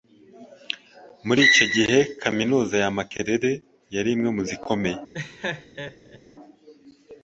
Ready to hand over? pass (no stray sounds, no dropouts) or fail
fail